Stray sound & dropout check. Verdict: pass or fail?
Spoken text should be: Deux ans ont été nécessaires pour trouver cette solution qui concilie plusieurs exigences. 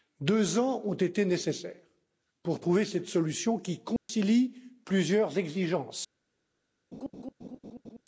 fail